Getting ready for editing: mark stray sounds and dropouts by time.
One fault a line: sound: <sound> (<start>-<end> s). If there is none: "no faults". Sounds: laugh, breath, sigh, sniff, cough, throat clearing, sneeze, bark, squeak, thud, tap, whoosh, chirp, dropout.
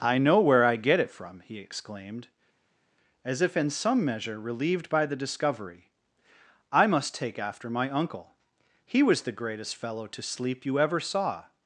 no faults